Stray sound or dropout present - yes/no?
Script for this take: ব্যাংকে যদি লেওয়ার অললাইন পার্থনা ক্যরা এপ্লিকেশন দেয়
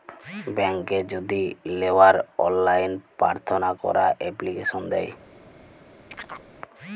yes